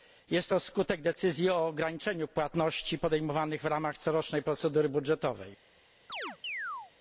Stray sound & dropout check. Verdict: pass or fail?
fail